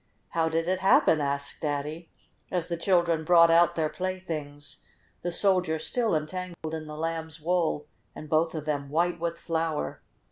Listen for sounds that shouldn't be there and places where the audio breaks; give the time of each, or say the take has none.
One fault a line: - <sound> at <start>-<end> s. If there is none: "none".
- dropout at 6.5-6.6 s